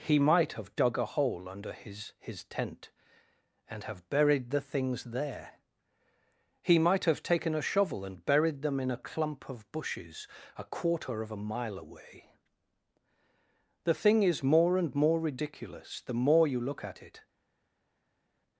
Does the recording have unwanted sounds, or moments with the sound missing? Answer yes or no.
no